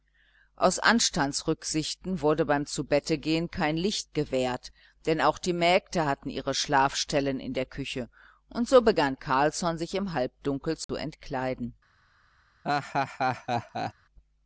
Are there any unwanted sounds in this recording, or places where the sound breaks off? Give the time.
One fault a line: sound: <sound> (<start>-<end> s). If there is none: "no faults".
sound: dropout (10.8-10.9 s)
sound: laugh (12.6-13.9 s)